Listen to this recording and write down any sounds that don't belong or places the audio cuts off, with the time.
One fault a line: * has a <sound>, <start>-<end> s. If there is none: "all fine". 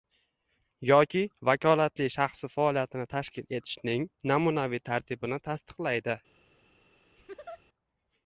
* has a laugh, 7.2-7.6 s